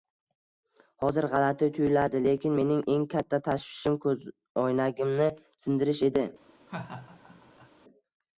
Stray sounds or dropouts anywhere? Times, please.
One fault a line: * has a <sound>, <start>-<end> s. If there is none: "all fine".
* has a laugh, 6.7-7.7 s